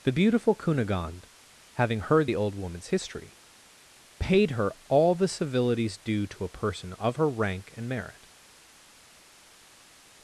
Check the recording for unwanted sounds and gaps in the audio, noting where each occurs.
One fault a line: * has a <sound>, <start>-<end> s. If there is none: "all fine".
all fine